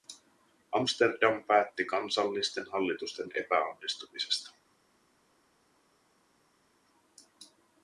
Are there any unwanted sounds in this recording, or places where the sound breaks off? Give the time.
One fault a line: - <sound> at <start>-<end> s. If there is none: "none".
none